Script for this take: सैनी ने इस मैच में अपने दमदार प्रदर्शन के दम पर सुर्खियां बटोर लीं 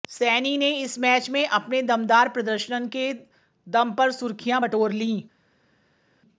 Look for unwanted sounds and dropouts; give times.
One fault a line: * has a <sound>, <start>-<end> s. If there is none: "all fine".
all fine